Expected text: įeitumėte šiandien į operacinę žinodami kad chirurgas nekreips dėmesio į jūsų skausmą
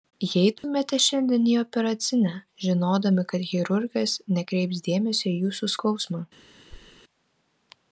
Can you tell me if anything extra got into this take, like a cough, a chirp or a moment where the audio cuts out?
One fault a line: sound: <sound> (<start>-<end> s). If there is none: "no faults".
sound: dropout (0.6-0.6 s)
sound: thud (6.7-7.0 s)